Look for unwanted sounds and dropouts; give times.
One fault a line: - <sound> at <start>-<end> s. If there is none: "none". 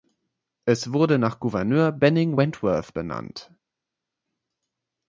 none